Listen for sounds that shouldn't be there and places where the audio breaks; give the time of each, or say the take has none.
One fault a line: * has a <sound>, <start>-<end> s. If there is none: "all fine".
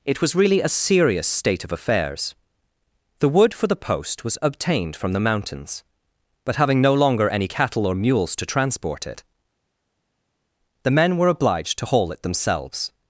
all fine